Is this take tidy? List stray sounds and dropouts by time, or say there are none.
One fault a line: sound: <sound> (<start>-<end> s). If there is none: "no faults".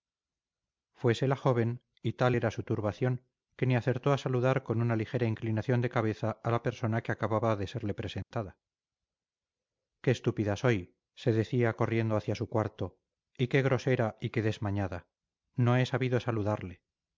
sound: dropout (8.2-8.3 s)